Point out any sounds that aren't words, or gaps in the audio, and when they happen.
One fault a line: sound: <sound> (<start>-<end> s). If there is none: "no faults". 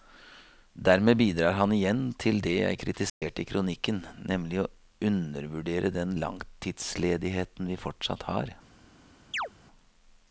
sound: dropout (3.1-3.2 s)
sound: chirp (9.3-9.5 s)